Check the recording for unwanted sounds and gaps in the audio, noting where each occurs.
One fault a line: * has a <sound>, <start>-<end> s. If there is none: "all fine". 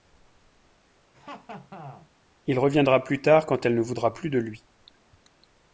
* has a laugh, 1.1-2.1 s